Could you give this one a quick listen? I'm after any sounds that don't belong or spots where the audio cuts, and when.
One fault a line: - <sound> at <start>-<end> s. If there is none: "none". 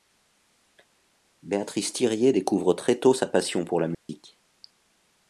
- dropout at 3.9-4.1 s